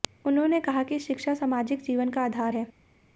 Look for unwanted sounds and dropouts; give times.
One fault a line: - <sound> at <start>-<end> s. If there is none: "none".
none